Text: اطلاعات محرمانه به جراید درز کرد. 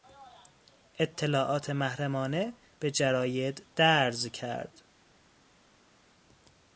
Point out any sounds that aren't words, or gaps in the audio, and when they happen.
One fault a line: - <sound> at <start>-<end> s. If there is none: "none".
none